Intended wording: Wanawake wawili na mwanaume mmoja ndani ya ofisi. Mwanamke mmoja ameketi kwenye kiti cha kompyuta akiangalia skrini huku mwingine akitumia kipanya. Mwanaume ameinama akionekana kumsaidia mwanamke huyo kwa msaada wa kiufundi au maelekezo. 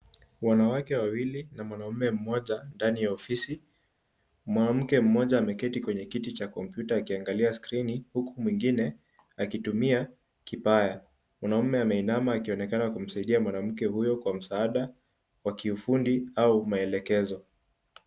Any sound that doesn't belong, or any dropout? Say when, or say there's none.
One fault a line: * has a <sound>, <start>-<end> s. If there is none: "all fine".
all fine